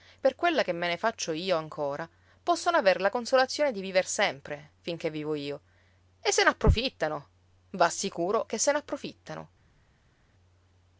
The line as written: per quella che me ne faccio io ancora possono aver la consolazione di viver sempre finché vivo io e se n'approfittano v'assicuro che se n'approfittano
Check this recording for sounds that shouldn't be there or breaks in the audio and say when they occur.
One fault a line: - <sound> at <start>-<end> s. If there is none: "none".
none